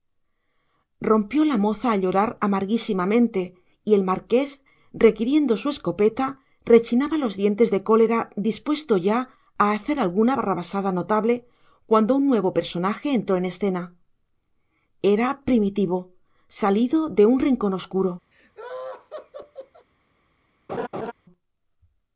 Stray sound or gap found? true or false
true